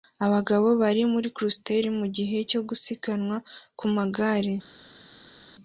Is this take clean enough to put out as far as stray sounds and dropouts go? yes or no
yes